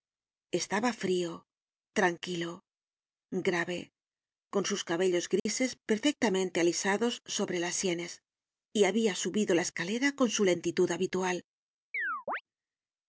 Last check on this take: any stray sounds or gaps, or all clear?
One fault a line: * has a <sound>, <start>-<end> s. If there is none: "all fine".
* has a dropout, 5.4-5.5 s
* has a chirp, 11.9-12.4 s